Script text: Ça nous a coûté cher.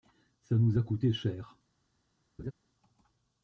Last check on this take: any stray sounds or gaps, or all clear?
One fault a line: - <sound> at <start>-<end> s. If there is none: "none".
- laugh at 2.4-2.5 s